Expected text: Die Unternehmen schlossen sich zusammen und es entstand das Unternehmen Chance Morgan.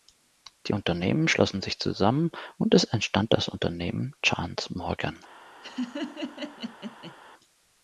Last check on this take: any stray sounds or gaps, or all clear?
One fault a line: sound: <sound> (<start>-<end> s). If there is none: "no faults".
sound: laugh (5.6-7.2 s)